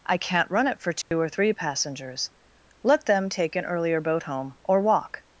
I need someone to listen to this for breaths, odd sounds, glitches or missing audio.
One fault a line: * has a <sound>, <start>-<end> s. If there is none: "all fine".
* has a dropout, 1.0-1.1 s